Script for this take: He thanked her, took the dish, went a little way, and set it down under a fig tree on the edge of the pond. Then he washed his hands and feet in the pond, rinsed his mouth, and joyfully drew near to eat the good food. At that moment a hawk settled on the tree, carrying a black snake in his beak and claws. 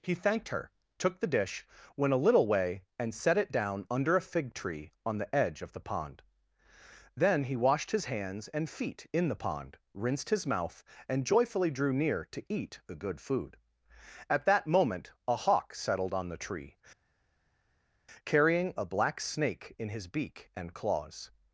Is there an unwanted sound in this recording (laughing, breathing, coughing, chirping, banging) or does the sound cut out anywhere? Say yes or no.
no